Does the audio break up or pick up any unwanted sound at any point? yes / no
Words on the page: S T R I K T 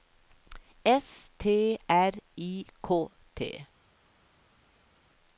no